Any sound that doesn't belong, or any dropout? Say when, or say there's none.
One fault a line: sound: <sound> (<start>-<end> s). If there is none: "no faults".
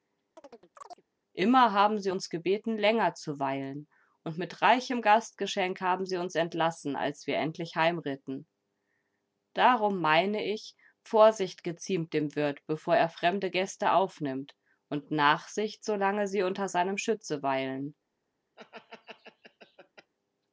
sound: chirp (0.4-1.0 s)
sound: laugh (18.6-20.1 s)